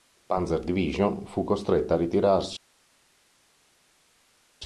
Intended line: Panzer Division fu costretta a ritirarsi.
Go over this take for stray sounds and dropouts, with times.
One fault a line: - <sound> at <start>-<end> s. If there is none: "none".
none